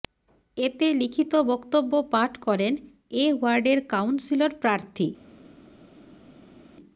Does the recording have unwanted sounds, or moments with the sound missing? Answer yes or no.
no